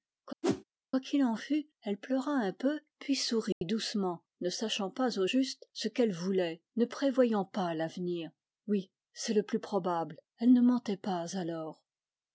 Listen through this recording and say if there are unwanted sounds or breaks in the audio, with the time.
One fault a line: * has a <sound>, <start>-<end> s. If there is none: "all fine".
* has a whoosh, 0.4-0.6 s
* has a dropout, 3.5-3.6 s